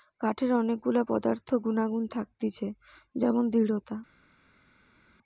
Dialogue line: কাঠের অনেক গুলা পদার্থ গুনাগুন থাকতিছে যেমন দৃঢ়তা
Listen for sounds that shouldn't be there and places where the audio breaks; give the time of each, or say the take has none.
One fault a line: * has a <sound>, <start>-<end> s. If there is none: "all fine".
all fine